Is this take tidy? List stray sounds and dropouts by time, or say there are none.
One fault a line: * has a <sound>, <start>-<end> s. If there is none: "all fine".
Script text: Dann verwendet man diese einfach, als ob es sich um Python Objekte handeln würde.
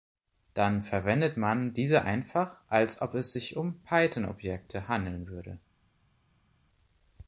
all fine